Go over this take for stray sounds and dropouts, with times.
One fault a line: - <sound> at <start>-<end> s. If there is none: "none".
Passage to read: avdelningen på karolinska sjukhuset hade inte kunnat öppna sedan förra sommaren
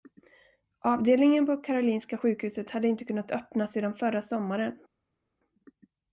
none